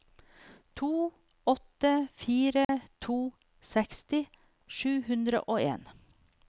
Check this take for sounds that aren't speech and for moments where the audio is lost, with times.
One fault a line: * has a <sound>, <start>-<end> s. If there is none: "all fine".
* has a dropout, 2.6-2.7 s